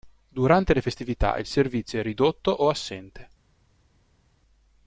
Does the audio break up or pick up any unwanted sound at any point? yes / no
no